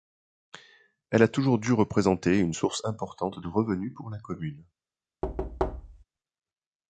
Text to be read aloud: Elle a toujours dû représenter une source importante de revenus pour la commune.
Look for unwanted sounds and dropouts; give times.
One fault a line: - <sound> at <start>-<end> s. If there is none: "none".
- thud at 5.2-6.0 s